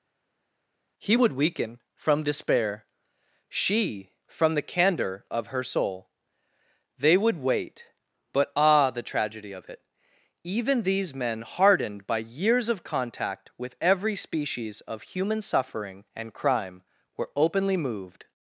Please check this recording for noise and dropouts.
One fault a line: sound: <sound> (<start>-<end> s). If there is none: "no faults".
no faults